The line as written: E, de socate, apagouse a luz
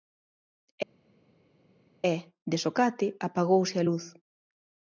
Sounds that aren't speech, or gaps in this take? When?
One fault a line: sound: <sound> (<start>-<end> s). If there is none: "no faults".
no faults